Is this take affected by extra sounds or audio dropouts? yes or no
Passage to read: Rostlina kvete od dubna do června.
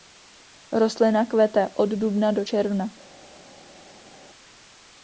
no